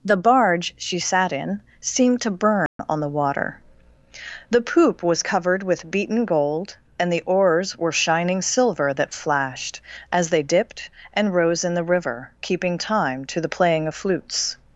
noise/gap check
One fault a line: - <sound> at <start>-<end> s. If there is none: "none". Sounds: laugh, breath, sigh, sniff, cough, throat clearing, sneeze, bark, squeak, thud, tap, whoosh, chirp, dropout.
- dropout at 2.7-2.8 s